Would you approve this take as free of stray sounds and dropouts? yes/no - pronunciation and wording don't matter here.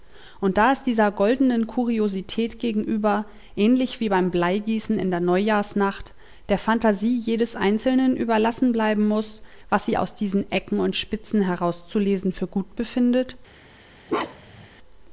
no